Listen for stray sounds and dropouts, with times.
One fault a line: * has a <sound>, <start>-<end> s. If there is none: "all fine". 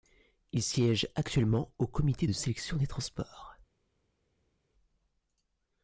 all fine